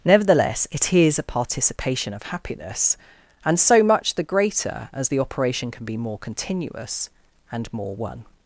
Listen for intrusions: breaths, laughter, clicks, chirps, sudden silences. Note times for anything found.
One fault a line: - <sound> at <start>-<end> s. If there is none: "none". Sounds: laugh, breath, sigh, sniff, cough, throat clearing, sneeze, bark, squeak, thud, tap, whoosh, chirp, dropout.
none